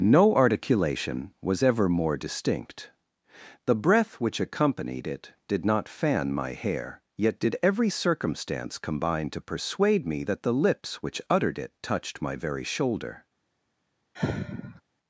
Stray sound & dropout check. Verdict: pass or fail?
fail